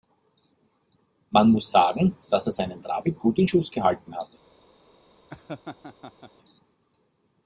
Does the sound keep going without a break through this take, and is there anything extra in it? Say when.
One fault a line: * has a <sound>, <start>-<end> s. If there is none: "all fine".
* has a laugh, 5.3-6.3 s